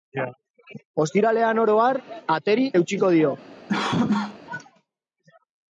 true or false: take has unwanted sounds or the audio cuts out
true